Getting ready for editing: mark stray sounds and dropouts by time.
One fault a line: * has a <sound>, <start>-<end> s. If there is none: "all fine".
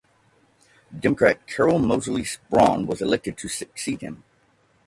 all fine